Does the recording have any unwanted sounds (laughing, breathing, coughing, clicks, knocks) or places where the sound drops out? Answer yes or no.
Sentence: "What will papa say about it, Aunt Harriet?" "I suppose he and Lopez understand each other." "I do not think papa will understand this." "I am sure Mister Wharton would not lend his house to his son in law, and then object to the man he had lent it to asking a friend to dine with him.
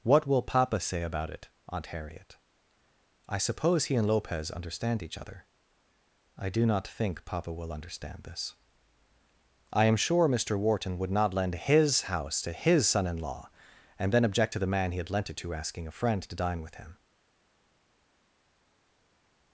no